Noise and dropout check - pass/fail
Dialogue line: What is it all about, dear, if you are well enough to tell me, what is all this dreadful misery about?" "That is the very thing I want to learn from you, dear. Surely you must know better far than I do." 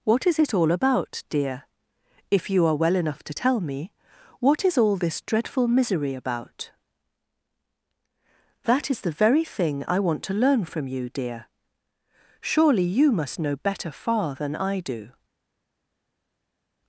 pass